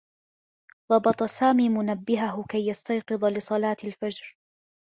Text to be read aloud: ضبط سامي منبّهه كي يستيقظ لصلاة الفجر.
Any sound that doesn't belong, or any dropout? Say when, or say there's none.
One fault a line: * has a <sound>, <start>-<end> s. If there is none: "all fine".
all fine